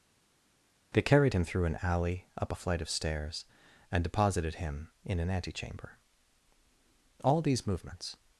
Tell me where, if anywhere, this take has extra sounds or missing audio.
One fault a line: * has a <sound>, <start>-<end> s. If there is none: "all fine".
all fine